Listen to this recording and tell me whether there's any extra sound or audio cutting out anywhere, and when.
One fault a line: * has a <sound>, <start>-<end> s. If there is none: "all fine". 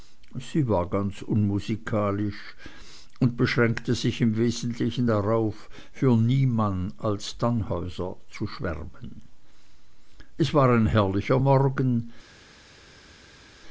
all fine